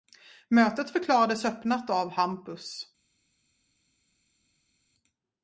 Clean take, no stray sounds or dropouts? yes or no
yes